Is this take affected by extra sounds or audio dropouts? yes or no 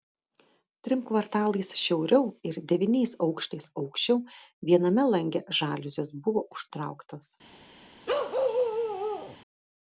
yes